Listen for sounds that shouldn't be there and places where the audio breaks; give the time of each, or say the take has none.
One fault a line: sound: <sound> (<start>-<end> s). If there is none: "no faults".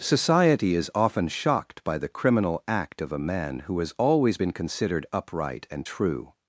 no faults